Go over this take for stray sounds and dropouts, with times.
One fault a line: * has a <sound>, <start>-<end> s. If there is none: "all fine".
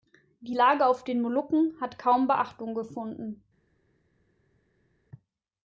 all fine